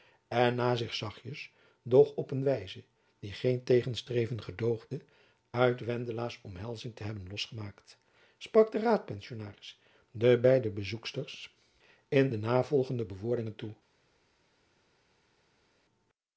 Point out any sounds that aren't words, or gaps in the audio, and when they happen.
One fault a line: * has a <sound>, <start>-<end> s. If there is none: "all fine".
all fine